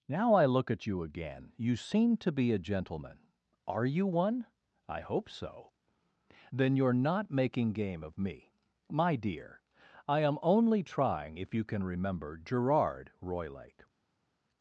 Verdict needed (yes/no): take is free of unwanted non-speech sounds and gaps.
yes